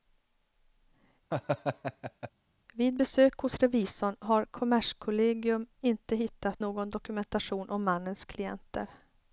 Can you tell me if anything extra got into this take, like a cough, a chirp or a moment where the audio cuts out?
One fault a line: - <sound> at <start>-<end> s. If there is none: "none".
- laugh at 1.3-2.3 s